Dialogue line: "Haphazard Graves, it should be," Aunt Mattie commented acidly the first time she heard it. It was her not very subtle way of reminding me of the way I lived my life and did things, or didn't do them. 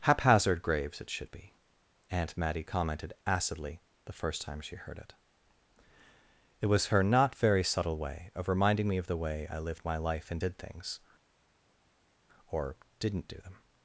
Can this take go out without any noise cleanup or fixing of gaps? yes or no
yes